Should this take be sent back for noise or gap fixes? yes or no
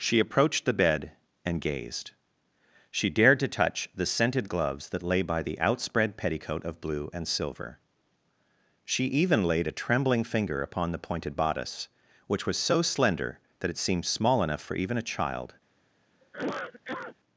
yes